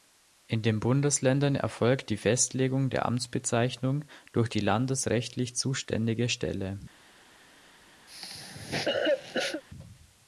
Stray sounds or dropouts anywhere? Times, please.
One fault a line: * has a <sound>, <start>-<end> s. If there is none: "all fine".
* has a cough, 8.1-9.6 s